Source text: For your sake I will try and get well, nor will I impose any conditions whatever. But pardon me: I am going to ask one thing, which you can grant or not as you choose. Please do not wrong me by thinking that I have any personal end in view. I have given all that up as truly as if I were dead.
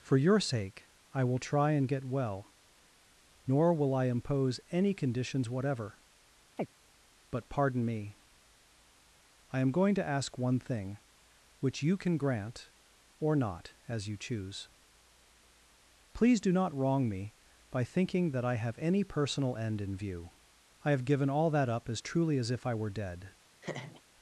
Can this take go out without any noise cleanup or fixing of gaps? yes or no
no